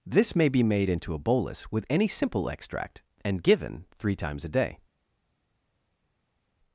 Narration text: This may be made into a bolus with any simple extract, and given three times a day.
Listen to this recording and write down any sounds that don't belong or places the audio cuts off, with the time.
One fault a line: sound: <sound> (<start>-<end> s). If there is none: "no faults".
no faults